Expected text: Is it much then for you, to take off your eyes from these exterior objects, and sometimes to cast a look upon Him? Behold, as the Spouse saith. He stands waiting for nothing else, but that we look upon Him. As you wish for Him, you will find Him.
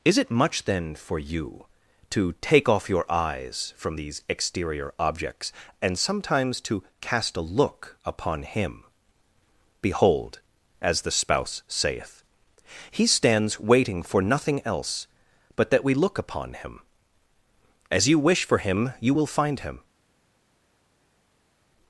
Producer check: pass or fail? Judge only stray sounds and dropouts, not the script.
pass